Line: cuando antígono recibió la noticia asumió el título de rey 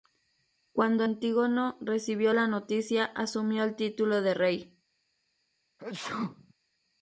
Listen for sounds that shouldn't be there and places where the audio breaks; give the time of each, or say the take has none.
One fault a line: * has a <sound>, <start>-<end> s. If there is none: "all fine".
* has a sneeze, 5.8-6.5 s